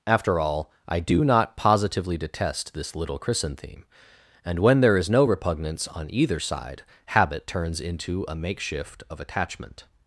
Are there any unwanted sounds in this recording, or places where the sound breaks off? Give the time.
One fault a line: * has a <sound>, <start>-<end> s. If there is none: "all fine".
all fine